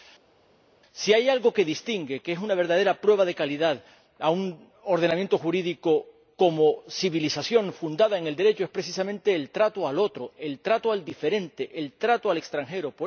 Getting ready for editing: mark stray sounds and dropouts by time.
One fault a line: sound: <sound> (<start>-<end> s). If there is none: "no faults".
no faults